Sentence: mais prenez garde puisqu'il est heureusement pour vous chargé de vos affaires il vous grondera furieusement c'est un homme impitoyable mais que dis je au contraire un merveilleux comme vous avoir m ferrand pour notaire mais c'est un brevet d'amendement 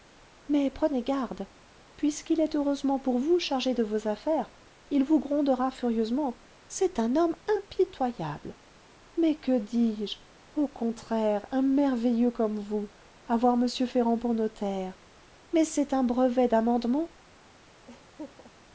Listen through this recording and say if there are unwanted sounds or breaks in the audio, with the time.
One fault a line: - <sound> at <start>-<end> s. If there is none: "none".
- laugh at 17.9-18.5 s